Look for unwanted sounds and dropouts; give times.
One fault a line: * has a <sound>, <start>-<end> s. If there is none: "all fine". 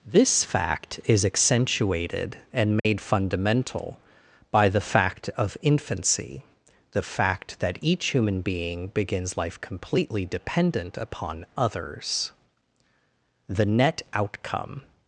* has a dropout, 2.8-2.8 s